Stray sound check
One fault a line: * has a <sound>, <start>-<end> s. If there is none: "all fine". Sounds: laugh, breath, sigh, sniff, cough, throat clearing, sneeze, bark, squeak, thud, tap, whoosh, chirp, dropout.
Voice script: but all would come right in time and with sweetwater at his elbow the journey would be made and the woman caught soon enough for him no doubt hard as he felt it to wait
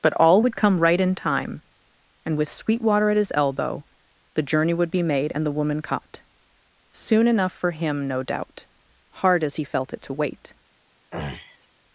* has a throat clearing, 11.1-11.7 s